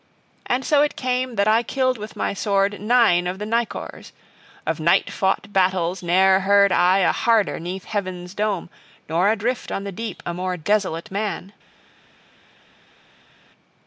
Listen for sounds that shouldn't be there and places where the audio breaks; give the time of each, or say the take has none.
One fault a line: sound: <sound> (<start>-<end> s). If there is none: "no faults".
no faults